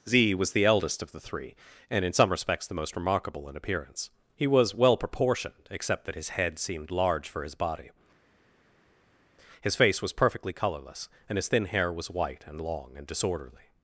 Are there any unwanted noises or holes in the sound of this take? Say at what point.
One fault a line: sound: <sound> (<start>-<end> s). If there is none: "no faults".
no faults